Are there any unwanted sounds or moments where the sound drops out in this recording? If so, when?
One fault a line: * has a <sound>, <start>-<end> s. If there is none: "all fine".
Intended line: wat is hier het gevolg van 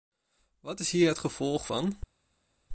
all fine